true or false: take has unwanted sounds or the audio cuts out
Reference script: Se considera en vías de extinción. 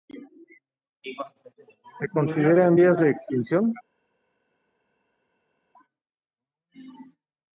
false